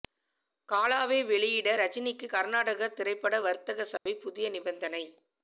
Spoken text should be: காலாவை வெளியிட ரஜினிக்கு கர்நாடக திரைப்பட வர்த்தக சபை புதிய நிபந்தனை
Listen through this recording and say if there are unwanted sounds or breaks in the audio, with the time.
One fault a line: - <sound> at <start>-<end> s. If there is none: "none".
- dropout at 4.0-4.1 s